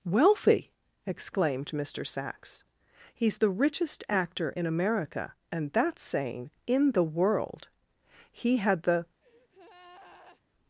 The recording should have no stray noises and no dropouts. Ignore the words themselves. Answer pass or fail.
fail